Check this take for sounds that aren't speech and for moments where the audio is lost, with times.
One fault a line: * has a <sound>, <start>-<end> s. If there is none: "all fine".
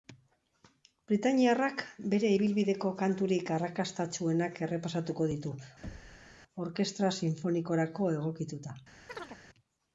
* has a thud, 5.8-6.3 s
* has a chirp, 9.1-9.4 s